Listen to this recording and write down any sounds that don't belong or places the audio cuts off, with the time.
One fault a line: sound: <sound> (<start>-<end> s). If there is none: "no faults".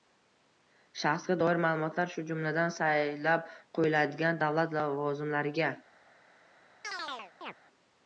sound: chirp (6.8-7.6 s)